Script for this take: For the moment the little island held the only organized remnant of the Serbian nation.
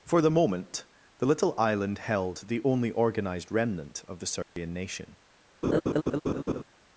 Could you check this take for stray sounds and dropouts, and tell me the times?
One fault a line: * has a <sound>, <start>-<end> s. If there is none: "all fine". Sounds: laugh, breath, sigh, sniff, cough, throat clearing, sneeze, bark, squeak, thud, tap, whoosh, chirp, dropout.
* has a dropout, 4.4-4.6 s
* has a laugh, 5.6-6.6 s